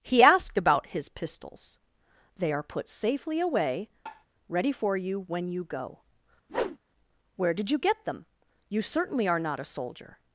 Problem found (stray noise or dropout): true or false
true